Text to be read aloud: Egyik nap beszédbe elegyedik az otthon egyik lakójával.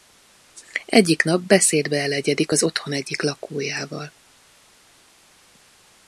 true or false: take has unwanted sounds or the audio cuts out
false